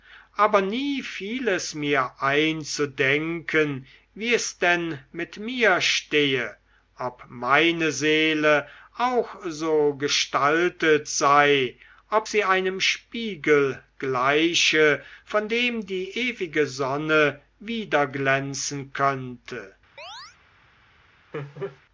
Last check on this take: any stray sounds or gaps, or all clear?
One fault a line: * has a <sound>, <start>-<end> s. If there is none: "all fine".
* has a chirp, 20.0-20.4 s
* has a laugh, 21.3-21.8 s